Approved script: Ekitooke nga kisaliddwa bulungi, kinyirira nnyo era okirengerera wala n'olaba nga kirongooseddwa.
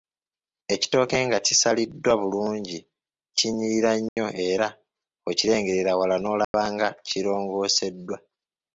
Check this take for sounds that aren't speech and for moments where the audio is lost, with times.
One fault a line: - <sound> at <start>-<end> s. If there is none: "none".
- dropout at 4.1-4.2 s
- dropout at 6.4-6.5 s